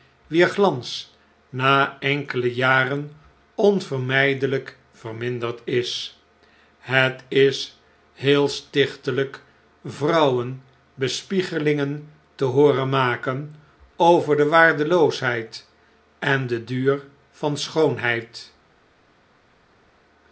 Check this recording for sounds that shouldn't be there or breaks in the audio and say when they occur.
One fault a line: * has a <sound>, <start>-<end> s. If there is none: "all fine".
all fine